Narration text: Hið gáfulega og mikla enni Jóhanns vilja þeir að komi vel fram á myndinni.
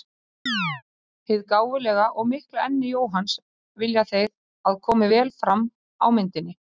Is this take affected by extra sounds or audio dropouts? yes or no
yes